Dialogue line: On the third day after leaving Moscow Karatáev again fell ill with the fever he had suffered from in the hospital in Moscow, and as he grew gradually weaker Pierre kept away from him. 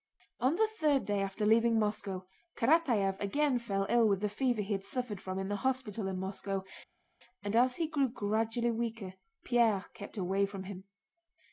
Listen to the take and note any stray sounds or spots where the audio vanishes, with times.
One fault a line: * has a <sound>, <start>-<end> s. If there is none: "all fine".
all fine